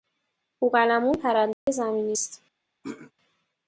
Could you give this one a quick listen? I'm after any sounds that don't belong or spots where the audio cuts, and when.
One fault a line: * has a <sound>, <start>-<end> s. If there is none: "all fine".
* has a dropout, 1.5-1.7 s
* has a throat clearing, 2.8-3.1 s